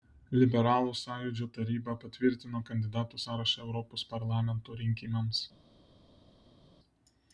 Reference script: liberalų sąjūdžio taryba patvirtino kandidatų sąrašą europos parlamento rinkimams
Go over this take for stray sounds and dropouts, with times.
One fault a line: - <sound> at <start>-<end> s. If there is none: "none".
none